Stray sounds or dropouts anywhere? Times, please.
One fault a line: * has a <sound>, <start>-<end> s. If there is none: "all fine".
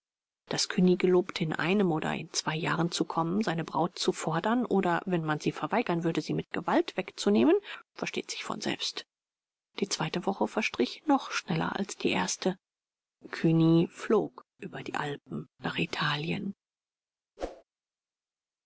* has a whoosh, 17.4-17.6 s